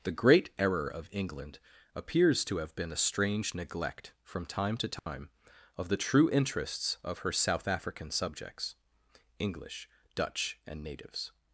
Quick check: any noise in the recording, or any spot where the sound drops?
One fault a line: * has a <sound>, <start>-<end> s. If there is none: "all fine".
* has a dropout, 5.0-5.1 s